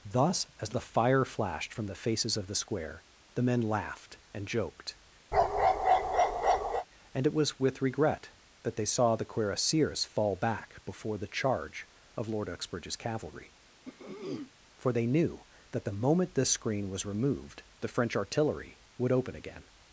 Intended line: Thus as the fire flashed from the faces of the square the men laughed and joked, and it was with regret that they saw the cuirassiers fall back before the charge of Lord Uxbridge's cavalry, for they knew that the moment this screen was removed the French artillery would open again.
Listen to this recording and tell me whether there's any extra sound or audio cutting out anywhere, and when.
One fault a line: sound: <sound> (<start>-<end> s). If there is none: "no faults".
sound: bark (5.3-6.9 s)
sound: throat clearing (13.8-14.5 s)